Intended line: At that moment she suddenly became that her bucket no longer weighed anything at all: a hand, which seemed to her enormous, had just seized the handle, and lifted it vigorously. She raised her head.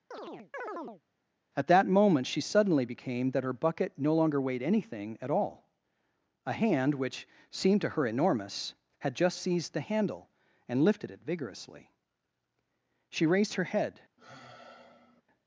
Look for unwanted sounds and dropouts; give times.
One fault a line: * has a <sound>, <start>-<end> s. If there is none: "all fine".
* has a chirp, 0.1-1.0 s
* has a sigh, 14.2-15.2 s